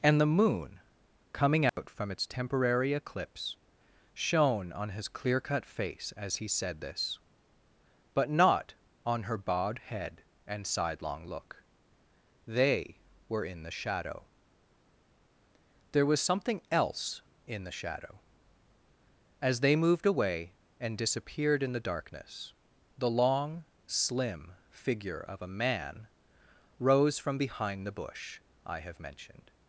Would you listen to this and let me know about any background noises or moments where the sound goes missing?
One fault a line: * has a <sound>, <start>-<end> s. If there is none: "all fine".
* has a dropout, 1.7-1.8 s